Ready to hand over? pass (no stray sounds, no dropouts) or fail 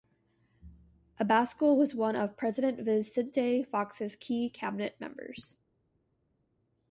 pass